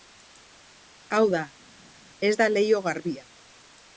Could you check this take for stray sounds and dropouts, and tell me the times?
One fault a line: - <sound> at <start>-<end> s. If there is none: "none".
none